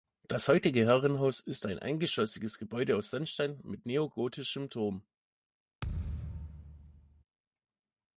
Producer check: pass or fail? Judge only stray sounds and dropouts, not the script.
fail